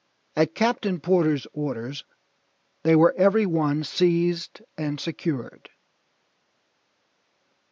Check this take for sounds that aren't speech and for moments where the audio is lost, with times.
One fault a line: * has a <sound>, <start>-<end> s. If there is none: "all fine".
all fine